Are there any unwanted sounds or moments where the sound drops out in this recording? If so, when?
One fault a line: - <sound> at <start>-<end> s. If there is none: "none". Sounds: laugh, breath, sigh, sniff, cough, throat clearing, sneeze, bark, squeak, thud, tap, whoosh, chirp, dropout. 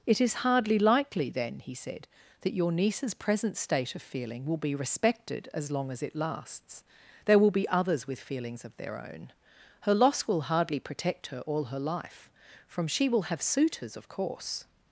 none